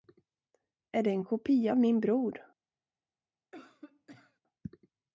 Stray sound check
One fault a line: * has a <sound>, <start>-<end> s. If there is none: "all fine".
* has a cough, 3.5-4.4 s